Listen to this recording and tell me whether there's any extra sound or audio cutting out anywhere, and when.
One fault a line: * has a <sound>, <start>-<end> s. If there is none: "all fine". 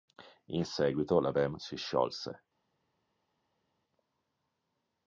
all fine